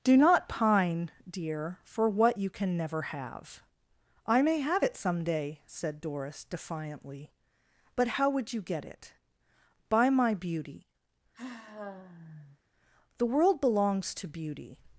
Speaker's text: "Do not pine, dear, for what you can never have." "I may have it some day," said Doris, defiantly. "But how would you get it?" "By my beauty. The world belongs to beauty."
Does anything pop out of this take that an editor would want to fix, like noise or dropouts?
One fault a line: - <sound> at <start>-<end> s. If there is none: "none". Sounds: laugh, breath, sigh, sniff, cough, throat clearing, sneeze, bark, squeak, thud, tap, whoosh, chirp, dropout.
- sigh at 11.3-12.6 s